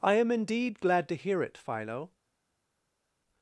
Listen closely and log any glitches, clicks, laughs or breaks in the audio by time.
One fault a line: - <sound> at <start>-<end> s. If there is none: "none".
none